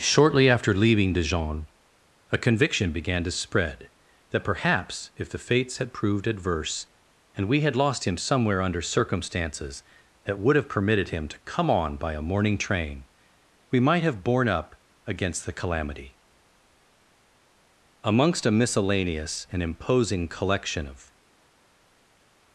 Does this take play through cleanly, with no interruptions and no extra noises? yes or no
yes